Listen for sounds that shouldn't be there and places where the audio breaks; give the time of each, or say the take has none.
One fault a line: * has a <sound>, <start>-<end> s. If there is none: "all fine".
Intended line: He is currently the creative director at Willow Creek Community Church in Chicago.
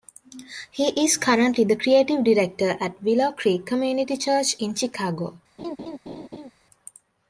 * has a laugh, 5.6-6.5 s